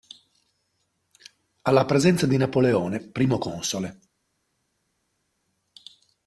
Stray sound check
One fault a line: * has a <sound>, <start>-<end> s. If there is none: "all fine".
all fine